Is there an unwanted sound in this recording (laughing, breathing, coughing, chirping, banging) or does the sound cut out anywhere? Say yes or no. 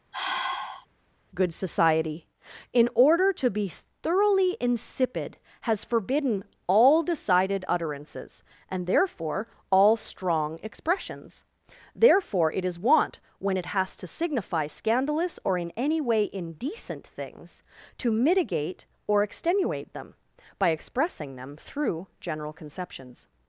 yes